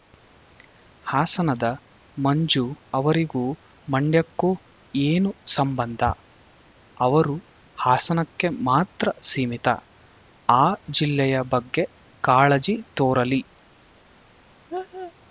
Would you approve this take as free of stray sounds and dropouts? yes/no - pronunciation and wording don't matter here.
no